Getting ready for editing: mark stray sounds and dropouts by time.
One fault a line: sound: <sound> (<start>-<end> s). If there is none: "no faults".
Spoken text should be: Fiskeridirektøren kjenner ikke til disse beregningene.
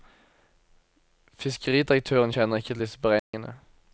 sound: dropout (3.2-3.3 s)